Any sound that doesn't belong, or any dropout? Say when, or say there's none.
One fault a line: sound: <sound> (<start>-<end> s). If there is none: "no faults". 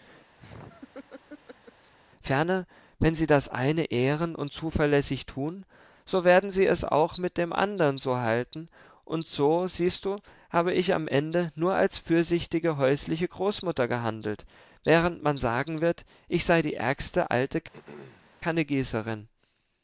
sound: laugh (0.4-1.9 s)
sound: throat clearing (17.7-18.4 s)